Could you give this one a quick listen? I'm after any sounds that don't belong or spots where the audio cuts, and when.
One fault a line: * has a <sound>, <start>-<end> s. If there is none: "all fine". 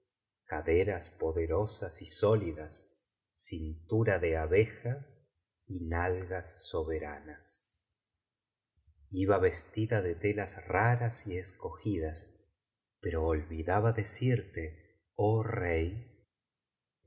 all fine